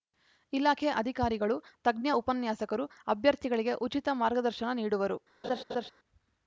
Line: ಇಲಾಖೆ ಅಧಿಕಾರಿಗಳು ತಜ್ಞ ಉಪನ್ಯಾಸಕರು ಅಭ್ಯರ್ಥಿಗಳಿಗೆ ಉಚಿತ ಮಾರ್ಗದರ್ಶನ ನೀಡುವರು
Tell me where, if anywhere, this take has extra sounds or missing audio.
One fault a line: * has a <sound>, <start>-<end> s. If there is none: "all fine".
* has a laugh, 5.4-5.9 s